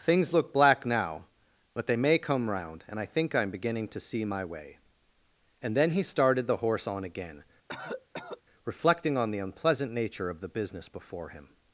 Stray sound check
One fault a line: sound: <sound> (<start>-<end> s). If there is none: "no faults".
sound: cough (7.7-8.4 s)